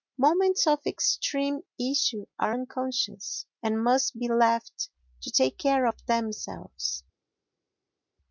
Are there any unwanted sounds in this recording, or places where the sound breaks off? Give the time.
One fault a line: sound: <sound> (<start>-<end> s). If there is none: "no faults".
no faults